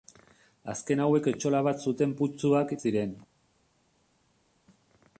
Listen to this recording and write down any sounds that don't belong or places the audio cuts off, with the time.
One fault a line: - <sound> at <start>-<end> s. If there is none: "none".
none